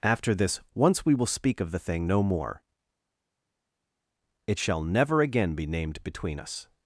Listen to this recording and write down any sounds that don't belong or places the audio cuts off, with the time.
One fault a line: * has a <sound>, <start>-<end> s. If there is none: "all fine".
all fine